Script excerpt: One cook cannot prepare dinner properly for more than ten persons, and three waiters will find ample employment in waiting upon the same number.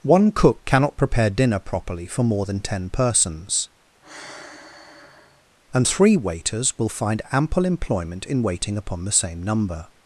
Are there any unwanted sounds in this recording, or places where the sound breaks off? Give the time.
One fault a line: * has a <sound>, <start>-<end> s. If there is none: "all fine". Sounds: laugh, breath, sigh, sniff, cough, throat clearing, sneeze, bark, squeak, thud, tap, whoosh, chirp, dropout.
* has a sigh, 4.0-5.5 s